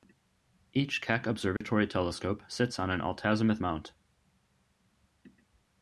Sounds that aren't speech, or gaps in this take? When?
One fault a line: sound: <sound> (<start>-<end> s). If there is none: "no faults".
sound: dropout (1.6-1.6 s)